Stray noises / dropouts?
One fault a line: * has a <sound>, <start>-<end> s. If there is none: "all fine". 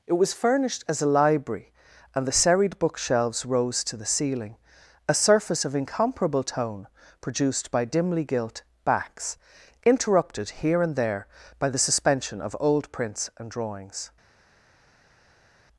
all fine